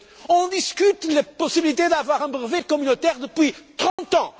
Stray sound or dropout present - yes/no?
yes